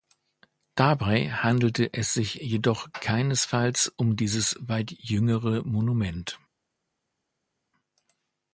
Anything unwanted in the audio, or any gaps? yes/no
no